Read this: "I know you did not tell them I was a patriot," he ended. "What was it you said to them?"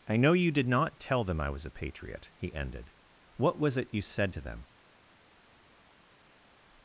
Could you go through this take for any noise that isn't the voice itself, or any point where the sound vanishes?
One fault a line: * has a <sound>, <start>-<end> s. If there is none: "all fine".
all fine